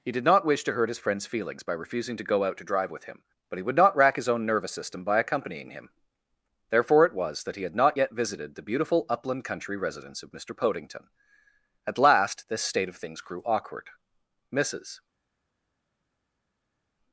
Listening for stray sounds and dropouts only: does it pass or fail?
pass